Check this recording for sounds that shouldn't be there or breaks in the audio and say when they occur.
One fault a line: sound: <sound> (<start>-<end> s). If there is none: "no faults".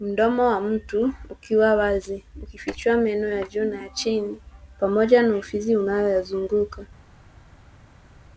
no faults